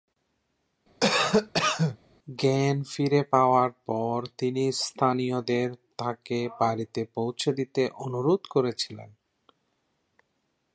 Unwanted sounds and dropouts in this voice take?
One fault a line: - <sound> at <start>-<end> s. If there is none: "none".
- cough at 1.0-2.0 s